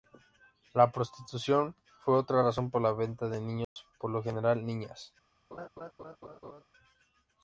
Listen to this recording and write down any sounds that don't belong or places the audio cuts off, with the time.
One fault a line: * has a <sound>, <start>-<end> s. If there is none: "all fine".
* has a dropout, 3.6-3.8 s
* has a laugh, 5.5-6.6 s